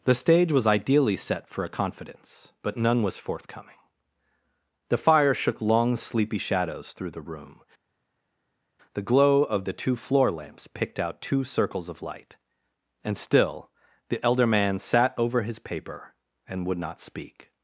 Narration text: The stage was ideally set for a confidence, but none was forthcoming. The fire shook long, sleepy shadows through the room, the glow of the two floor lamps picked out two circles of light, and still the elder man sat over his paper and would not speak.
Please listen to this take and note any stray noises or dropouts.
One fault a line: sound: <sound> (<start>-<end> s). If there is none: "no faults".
no faults